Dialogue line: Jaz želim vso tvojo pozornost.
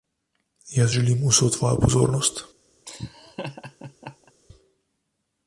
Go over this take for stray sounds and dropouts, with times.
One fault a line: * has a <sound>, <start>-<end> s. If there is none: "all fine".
* has a laugh, 2.9-4.3 s